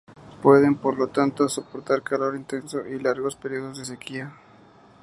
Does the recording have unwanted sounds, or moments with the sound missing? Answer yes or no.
no